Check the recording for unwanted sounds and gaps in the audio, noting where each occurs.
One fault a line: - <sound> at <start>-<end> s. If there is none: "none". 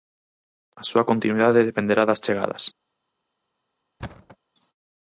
- thud at 4.0-4.4 s